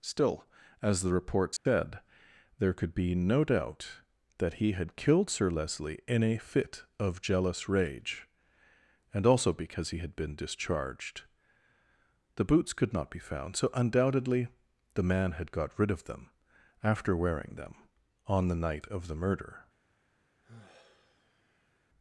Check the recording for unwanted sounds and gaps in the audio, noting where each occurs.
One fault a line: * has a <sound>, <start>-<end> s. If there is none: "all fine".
* has a dropout, 1.6-1.7 s
* has a sigh, 20.4-21.8 s